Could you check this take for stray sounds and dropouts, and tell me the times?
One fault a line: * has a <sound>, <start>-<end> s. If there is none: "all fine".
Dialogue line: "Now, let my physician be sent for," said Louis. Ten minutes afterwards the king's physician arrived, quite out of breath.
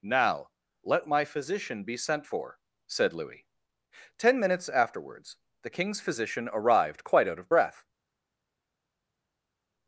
all fine